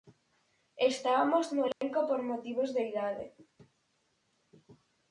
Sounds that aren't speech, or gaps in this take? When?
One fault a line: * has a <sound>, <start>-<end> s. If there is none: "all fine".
* has a dropout, 1.7-1.8 s